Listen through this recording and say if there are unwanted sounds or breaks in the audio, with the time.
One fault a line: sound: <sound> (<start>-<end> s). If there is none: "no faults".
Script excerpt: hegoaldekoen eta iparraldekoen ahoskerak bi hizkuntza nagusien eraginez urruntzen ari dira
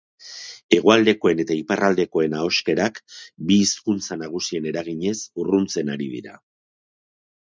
no faults